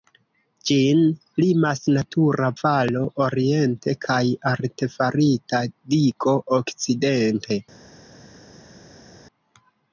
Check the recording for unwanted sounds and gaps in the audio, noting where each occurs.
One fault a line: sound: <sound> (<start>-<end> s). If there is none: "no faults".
no faults